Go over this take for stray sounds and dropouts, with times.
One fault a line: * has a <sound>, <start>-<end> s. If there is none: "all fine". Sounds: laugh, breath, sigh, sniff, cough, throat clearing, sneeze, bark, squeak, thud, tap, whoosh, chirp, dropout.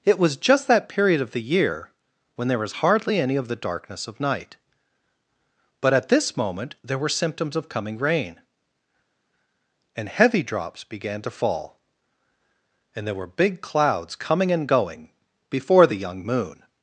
all fine